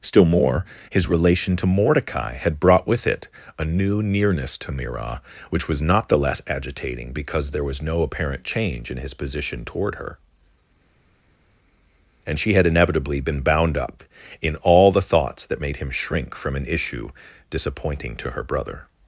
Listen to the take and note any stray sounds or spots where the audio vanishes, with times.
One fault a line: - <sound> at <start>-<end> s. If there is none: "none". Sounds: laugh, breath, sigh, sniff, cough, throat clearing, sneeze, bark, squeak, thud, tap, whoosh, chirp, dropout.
none